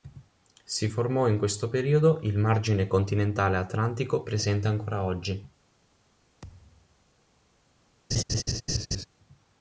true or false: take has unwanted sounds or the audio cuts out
true